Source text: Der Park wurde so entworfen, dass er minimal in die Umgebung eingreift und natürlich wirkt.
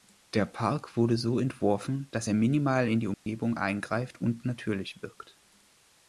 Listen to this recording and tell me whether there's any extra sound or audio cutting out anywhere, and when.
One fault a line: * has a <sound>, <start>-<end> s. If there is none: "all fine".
* has a dropout, 3.1-3.3 s